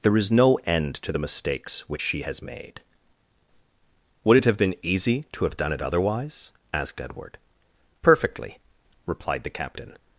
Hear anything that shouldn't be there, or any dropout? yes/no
no